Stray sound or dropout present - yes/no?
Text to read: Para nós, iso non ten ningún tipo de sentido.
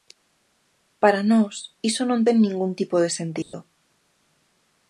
yes